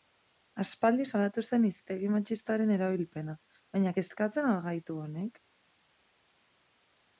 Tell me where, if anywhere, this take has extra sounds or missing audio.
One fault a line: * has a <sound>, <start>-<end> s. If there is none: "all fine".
all fine